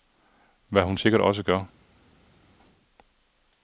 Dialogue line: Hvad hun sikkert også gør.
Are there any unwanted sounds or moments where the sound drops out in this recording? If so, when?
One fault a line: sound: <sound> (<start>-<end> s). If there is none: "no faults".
no faults